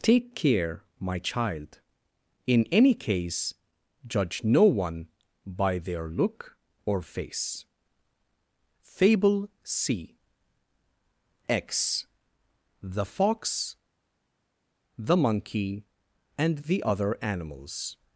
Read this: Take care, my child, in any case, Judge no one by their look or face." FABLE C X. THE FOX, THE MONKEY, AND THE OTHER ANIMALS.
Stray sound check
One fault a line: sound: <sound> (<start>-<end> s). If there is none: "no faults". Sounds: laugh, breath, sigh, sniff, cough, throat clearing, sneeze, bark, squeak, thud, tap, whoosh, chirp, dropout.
no faults